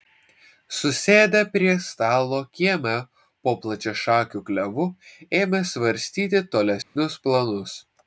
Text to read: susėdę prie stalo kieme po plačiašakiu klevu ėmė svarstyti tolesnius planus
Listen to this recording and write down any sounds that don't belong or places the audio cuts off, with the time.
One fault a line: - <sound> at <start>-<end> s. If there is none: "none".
- dropout at 6.8-7.0 s